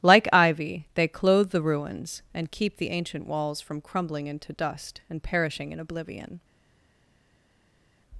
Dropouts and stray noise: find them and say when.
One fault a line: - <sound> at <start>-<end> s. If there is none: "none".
none